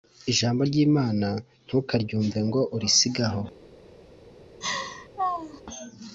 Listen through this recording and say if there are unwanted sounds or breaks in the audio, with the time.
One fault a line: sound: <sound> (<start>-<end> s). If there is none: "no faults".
sound: laugh (4.6-5.6 s)